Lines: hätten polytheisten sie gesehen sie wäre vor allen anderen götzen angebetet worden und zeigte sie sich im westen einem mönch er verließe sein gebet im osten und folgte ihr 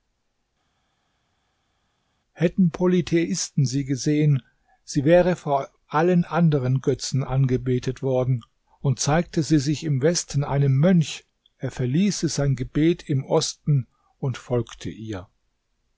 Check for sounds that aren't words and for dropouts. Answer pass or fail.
pass